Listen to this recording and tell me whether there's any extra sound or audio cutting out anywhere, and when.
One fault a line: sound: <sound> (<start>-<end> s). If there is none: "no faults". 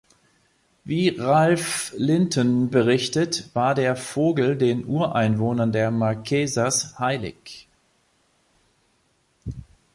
no faults